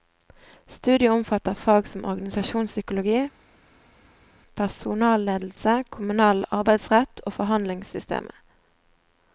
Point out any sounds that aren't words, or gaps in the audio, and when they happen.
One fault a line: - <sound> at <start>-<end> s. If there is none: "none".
none